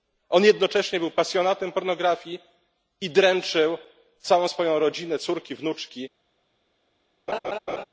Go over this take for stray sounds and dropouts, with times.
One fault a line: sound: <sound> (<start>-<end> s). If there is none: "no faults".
sound: laugh (7.3-7.8 s)